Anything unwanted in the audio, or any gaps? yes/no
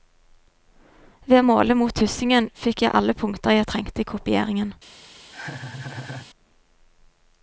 yes